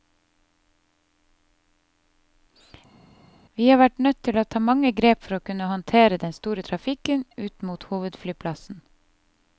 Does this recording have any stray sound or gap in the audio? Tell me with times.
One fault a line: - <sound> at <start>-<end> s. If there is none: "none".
none